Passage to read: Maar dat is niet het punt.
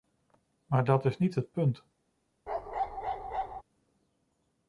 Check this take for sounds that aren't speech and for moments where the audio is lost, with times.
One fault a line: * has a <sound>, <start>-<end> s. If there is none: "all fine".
* has a bark, 2.5-3.6 s